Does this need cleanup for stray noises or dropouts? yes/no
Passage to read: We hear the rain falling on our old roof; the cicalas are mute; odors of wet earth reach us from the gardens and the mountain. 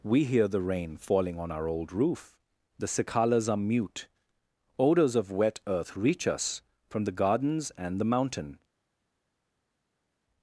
no